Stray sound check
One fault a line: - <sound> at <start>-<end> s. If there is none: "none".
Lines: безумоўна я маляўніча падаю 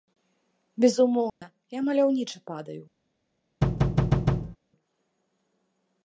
- dropout at 1.3-1.4 s
- thud at 3.6-4.6 s